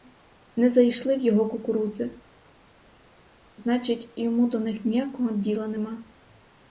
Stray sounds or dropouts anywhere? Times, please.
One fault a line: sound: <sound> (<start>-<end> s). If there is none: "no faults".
no faults